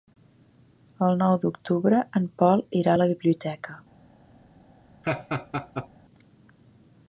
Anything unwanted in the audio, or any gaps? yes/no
yes